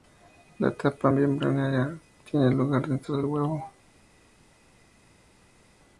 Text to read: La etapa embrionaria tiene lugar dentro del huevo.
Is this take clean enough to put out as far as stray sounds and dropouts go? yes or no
yes